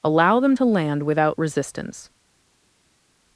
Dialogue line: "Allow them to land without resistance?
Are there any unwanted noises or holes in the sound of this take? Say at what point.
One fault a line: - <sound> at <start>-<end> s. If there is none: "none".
none